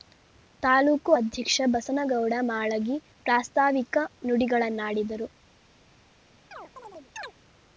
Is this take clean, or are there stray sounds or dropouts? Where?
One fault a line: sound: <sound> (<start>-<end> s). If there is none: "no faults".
sound: chirp (6.5-7.3 s)